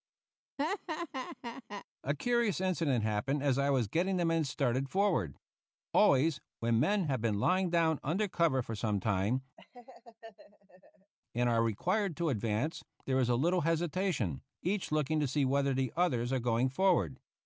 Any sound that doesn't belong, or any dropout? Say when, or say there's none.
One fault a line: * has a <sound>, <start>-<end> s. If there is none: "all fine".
* has a laugh, 0.6-1.9 s
* has a laugh, 9.6-11.1 s